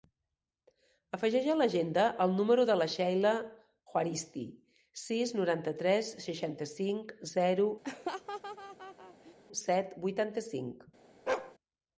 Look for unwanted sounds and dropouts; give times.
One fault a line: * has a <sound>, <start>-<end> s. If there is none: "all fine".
* has a laugh, 7.8-9.3 s
* has a bark, 11.3-11.6 s